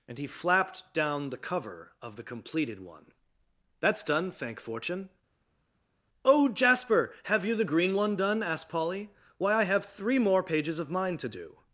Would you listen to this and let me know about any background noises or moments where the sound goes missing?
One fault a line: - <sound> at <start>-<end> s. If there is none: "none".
none